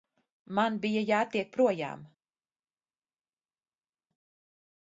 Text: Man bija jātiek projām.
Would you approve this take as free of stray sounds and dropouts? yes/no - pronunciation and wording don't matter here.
yes